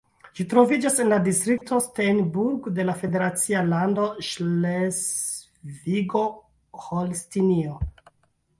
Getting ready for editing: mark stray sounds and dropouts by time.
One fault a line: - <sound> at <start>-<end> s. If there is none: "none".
- dropout at 1.6-1.6 s